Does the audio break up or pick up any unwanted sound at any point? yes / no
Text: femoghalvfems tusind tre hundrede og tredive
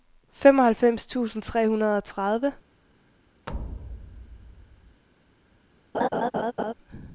yes